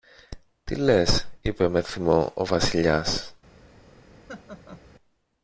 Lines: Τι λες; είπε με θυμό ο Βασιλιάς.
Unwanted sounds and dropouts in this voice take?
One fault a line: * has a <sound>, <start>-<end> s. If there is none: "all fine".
* has a laugh, 4.3-4.8 s